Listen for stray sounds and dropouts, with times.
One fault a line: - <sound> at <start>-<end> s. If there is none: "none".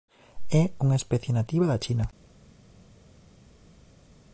none